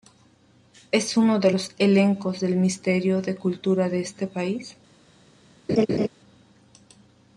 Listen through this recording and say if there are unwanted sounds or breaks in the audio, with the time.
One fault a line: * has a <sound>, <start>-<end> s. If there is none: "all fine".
* has a laugh, 5.7-6.1 s